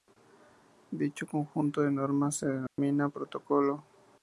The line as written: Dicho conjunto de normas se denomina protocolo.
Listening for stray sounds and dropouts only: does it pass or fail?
fail